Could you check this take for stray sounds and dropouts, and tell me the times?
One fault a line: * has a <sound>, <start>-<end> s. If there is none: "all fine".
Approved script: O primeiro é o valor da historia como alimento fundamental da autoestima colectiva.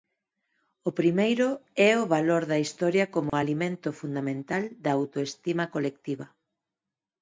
* has a dropout, 3.3-3.3 s